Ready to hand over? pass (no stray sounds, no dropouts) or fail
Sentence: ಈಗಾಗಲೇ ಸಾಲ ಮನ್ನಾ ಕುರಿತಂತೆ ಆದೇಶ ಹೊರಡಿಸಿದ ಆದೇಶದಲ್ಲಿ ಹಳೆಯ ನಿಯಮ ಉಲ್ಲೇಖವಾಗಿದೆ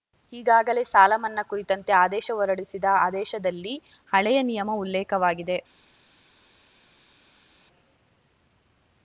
pass